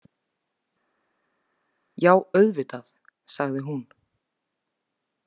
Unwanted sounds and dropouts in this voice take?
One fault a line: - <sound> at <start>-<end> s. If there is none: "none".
none